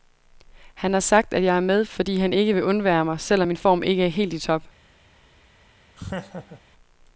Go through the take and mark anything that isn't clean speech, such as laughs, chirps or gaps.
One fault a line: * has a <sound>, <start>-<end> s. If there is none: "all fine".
* has a laugh, 6.0-6.6 s